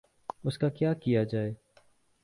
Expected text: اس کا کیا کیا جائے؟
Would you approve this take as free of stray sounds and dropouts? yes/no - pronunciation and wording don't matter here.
yes